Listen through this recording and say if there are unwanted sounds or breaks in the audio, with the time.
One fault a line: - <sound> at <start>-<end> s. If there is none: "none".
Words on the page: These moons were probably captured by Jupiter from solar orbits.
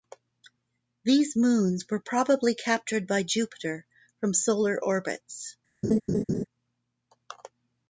- laugh at 5.8-6.4 s